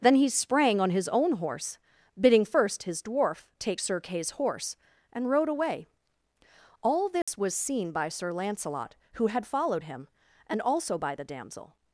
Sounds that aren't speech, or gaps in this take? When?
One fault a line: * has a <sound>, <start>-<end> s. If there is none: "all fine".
* has a dropout, 7.2-7.3 s